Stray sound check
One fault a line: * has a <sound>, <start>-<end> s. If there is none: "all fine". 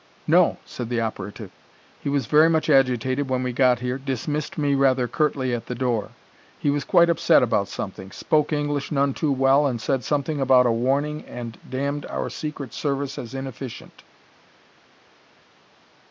all fine